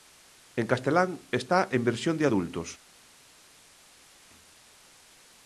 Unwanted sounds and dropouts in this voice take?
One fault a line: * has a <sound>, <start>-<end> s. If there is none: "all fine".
all fine